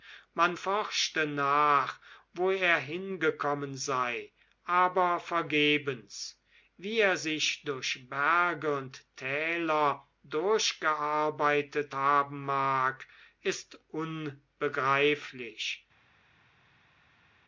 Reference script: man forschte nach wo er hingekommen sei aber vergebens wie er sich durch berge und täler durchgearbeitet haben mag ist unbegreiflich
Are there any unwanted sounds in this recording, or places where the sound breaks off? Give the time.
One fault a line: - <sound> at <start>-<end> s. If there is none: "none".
none